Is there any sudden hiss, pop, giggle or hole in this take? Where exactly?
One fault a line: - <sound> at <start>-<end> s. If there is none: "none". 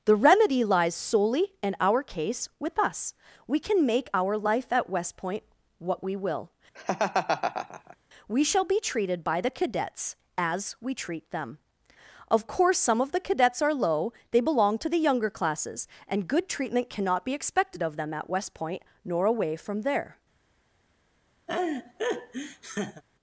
- laugh at 6.7-8.0 s
- laugh at 21.5-23.0 s